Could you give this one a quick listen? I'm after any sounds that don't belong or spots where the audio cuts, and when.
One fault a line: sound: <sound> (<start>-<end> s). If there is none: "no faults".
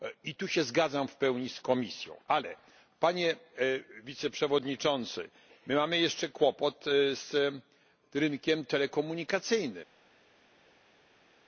no faults